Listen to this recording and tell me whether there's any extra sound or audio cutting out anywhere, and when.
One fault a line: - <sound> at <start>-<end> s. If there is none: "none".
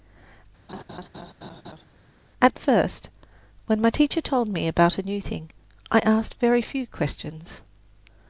- laugh at 0.7-1.9 s